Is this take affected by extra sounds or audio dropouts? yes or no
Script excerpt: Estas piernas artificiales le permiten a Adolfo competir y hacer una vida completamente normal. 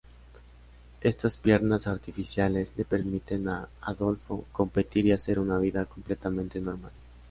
no